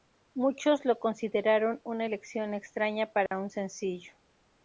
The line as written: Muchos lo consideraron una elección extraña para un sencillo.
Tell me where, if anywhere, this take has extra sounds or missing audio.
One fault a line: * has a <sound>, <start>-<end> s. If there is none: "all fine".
* has a dropout, 3.3-3.3 s